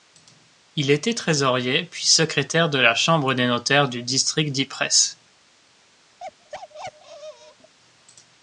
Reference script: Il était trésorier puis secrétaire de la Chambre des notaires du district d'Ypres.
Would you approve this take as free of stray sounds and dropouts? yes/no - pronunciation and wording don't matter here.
no